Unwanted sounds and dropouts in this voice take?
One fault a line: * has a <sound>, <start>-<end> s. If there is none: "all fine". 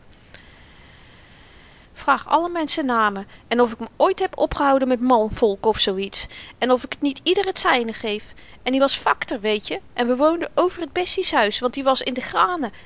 all fine